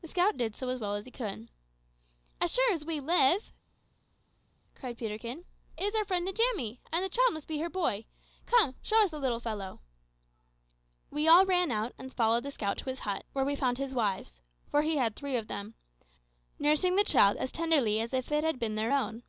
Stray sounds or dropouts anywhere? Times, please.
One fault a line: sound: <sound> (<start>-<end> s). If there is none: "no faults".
no faults